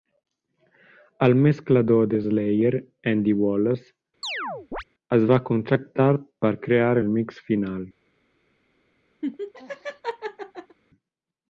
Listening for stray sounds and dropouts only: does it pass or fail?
fail